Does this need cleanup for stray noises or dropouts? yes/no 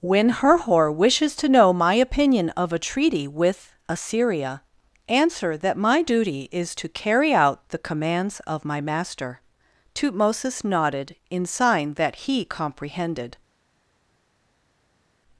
no